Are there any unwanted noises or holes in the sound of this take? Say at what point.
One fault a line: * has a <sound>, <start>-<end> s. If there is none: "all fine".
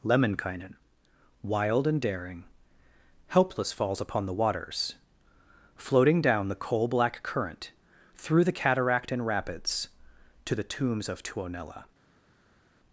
all fine